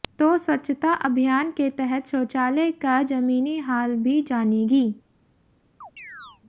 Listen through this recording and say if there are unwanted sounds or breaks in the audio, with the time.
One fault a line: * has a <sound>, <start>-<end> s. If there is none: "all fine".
* has a chirp, 5.8-6.4 s